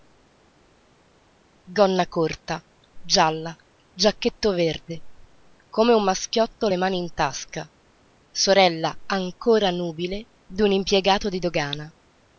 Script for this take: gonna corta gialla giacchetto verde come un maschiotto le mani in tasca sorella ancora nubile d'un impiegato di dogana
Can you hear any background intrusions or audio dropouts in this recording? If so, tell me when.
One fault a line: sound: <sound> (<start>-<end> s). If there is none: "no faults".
no faults